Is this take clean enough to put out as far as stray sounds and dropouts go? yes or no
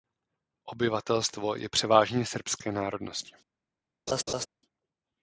no